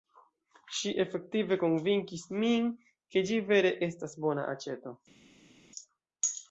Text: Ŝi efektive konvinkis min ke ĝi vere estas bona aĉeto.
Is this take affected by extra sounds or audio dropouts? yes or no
no